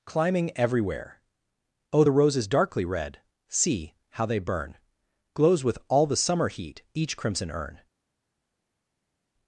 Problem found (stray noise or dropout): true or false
false